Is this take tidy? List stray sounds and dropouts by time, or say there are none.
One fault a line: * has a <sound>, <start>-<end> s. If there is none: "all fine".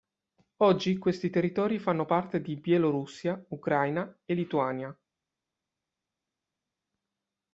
all fine